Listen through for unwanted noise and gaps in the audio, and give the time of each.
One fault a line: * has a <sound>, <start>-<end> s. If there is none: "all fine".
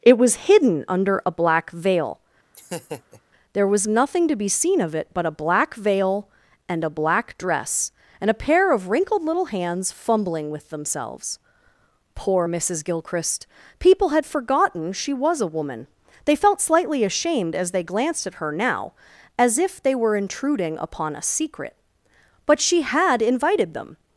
* has a laugh, 2.5-3.2 s